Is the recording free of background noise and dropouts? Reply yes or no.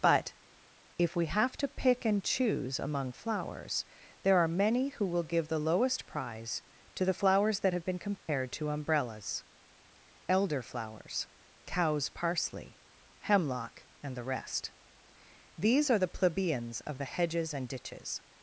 no